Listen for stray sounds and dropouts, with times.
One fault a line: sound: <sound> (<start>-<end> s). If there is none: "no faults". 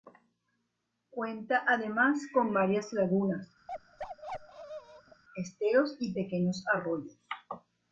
sound: bark (3.7-5.2 s)